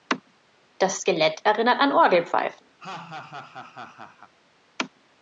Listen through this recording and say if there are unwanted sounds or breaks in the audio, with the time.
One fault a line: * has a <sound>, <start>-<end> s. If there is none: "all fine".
* has a laugh, 2.8-4.3 s